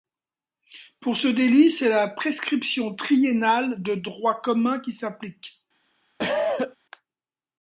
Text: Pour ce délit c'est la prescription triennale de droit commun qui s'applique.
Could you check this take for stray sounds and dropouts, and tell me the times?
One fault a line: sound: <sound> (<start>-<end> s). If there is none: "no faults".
sound: cough (6.2-6.8 s)